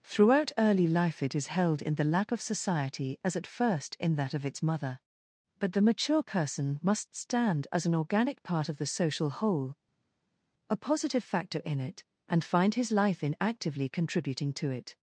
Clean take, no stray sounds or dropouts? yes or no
yes